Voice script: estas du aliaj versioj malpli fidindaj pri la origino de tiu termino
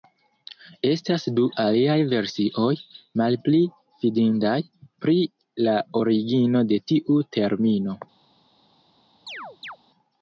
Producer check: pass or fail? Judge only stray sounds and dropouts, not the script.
fail